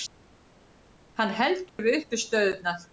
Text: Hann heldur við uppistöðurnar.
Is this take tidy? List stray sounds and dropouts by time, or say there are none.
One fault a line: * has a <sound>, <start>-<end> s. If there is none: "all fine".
* has a dropout, 1.7-1.8 s